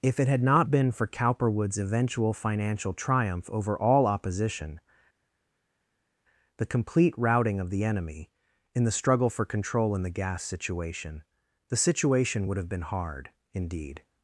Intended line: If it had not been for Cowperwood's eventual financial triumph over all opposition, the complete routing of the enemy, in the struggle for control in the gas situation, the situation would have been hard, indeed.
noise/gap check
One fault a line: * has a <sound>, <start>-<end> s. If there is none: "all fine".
all fine